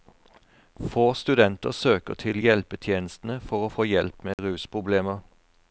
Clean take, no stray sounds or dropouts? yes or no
no